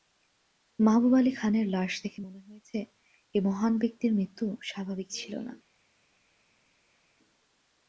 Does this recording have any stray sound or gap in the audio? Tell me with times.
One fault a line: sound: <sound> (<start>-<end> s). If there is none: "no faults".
no faults